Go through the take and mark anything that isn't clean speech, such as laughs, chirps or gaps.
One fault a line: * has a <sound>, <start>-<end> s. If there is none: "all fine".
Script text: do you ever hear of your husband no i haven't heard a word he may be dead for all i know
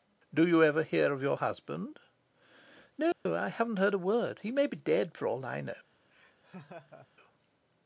* has a dropout, 3.1-3.3 s
* has a laugh, 6.1-7.1 s